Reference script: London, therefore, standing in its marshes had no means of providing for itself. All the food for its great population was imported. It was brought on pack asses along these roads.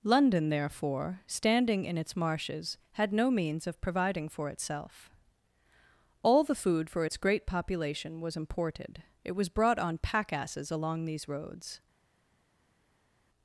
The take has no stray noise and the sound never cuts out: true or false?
true